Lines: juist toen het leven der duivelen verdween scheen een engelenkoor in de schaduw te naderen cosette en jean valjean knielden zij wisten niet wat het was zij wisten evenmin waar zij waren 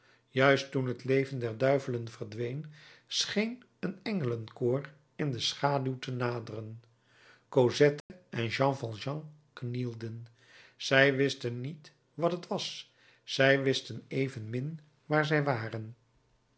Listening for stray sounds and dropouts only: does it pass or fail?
fail